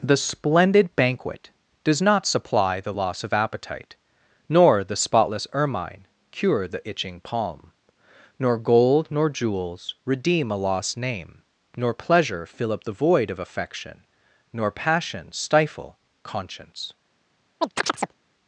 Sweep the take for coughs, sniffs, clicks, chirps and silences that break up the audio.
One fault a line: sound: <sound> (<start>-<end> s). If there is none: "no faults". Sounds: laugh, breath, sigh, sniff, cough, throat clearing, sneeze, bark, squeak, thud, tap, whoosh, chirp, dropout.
sound: chirp (17.6-18.2 s)